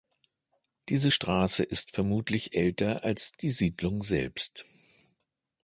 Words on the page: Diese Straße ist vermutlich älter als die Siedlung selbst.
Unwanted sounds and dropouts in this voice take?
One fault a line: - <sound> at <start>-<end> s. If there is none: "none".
none